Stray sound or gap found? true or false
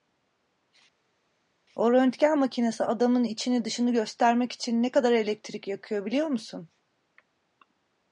false